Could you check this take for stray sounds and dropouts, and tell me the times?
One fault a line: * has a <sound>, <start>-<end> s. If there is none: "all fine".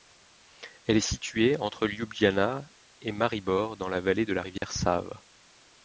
* has a dropout, 4.6-4.6 s